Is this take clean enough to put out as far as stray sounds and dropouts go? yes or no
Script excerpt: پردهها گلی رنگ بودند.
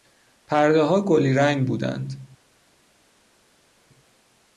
yes